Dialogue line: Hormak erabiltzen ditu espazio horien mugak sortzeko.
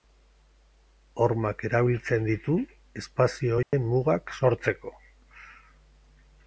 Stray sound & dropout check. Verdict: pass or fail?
fail